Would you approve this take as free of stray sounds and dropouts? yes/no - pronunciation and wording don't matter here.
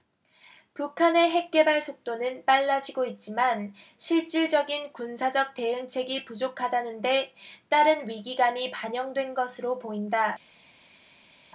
yes